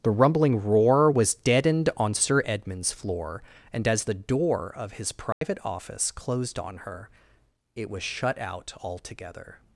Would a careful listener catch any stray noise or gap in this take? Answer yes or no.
yes